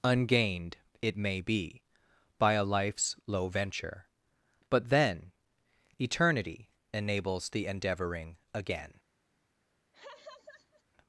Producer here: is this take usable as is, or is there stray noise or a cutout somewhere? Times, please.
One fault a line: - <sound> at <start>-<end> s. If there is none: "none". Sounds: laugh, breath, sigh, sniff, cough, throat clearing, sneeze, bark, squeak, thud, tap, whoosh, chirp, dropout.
- laugh at 9.9-10.8 s